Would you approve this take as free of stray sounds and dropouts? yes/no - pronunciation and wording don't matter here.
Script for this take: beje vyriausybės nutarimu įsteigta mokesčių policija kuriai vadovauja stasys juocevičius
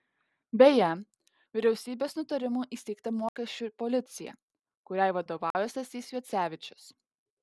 no